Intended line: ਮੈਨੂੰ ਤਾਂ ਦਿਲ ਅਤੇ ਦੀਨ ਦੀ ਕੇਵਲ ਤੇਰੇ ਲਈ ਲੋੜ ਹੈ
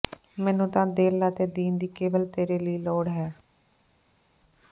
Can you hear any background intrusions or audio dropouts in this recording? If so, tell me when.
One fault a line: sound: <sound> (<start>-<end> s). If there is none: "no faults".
no faults